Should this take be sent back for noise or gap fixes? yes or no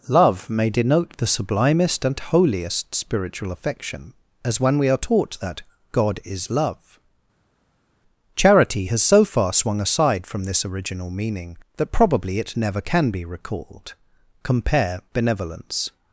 no